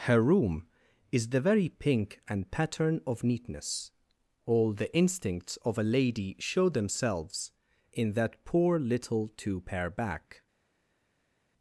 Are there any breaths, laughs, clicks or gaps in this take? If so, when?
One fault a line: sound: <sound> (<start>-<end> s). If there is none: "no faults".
no faults